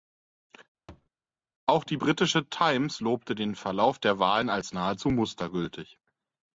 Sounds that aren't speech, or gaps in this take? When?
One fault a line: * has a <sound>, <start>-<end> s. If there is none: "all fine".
* has a thud, 0.9-1.1 s